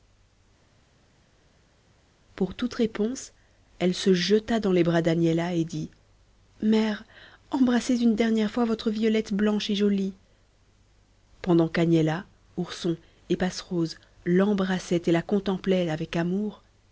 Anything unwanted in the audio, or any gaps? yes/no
no